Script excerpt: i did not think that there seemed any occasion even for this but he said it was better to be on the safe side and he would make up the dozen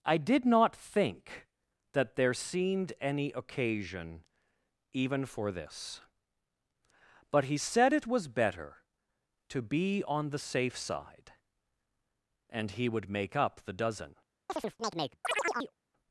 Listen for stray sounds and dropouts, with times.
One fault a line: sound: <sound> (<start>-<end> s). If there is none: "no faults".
sound: chirp (14.5-15.7 s)